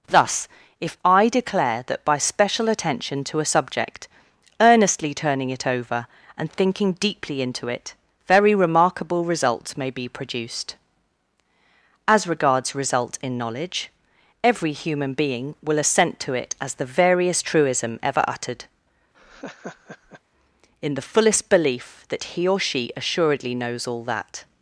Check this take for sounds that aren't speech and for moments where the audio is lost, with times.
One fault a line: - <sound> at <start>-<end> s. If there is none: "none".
- laugh at 19.1-20.2 s